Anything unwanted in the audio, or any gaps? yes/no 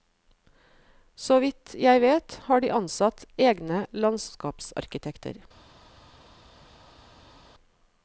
no